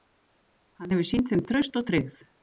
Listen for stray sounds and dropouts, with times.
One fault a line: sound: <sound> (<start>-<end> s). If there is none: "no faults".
no faults